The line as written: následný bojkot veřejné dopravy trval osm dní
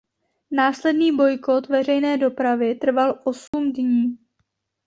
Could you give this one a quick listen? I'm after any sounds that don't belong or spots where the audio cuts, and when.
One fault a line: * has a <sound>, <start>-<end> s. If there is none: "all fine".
* has a dropout, 3.5-3.5 s